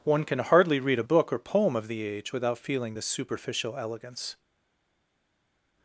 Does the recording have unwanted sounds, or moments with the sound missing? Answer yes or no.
no